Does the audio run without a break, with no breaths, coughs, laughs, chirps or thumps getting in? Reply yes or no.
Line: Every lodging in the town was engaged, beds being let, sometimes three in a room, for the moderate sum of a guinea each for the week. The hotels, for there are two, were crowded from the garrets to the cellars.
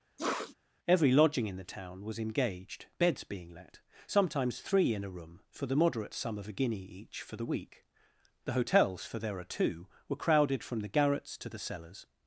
no